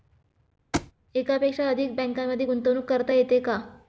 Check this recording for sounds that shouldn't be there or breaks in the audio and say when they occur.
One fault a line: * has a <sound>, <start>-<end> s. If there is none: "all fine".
* has a thud, 0.7-0.9 s